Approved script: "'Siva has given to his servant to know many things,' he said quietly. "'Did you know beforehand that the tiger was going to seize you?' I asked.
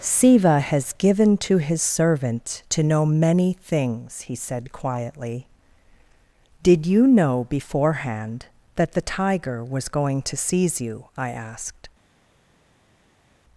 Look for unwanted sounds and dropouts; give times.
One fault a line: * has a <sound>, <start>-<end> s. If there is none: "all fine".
all fine